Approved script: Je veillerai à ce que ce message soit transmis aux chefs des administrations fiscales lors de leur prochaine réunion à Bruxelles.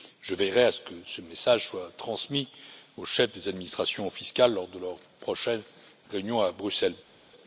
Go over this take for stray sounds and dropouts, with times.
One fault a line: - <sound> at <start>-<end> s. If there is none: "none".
none